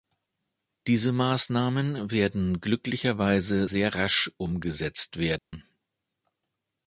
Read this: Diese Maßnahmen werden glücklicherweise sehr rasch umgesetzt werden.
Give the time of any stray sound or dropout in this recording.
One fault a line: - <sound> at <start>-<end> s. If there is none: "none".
- dropout at 5.4-5.5 s